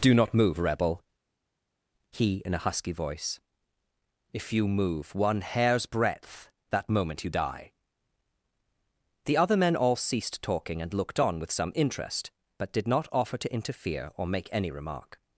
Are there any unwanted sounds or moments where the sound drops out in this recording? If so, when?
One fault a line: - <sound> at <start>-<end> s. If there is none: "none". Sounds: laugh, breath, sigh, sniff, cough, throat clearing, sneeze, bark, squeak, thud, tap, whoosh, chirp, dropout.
none